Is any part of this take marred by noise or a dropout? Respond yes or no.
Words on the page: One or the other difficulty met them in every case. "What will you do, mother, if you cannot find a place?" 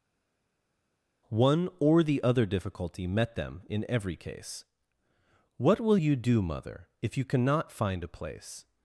no